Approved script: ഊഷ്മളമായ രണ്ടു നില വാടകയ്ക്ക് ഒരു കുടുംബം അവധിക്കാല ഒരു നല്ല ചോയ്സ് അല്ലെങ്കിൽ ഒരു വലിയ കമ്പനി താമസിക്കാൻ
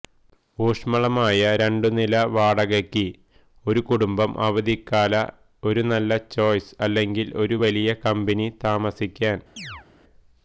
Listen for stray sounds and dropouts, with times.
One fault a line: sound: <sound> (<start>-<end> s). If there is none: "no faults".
sound: chirp (9.6-9.9 s)